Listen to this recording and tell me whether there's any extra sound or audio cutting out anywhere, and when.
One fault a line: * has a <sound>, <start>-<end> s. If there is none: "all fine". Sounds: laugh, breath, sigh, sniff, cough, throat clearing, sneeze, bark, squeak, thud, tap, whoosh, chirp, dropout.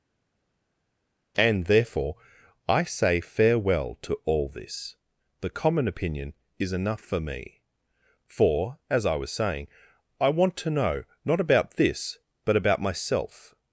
all fine